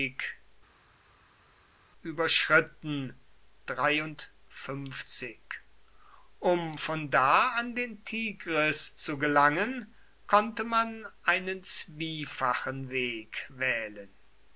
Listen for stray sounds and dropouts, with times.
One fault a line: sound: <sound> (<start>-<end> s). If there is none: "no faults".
no faults